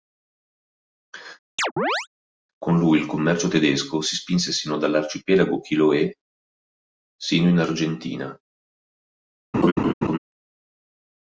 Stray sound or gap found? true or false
true